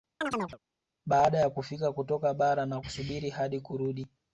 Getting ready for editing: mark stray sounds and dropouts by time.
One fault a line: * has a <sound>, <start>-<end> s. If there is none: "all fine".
* has a chirp, 0.2-0.6 s